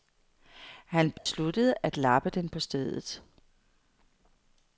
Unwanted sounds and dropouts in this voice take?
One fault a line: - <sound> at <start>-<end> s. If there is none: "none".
- dropout at 1.2-1.3 s